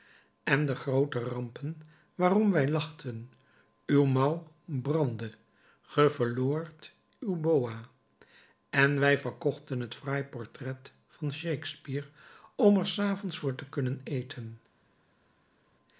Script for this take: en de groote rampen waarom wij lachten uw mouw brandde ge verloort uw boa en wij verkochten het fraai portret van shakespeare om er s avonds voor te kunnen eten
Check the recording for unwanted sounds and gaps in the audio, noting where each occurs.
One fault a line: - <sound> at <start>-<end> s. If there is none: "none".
none